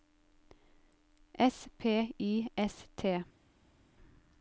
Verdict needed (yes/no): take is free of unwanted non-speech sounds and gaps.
yes